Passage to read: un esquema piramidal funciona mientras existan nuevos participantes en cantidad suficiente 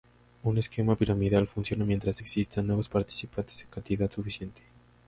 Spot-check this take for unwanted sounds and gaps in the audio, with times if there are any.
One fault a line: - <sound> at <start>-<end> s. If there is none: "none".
none